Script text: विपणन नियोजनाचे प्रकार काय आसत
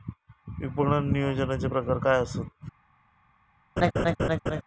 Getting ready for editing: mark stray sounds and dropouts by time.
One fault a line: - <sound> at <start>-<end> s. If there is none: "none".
- laugh at 3.8-4.6 s